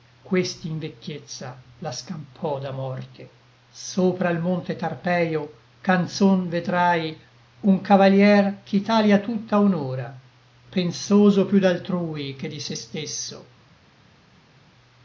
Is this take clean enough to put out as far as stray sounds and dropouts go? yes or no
yes